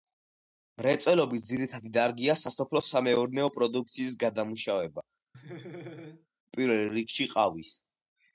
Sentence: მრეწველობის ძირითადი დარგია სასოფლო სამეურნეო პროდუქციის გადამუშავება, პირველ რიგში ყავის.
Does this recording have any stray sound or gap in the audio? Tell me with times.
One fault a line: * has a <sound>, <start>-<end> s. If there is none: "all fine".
* has a laugh, 5.3-6.3 s